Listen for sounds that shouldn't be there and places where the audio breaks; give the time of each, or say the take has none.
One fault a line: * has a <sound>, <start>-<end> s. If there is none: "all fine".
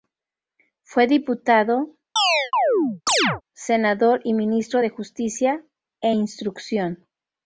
* has a chirp, 2.2-3.4 s